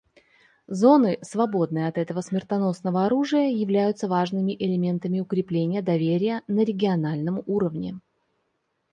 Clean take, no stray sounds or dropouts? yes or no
yes